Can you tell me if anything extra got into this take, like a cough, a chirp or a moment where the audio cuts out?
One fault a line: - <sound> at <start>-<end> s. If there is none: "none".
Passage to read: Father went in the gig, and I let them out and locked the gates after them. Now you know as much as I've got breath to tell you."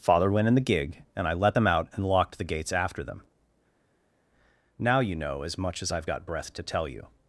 none